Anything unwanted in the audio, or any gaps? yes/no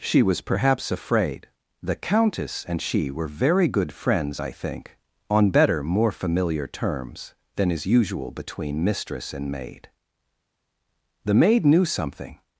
no